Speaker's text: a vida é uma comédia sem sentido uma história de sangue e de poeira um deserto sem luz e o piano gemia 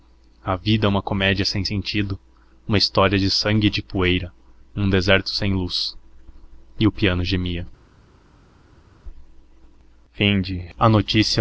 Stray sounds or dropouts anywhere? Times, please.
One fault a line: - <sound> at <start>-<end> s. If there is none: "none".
none